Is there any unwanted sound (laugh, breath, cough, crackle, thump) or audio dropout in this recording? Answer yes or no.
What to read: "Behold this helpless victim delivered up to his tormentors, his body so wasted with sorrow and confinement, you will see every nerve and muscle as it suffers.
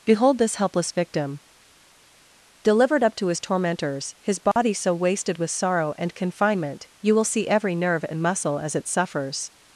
yes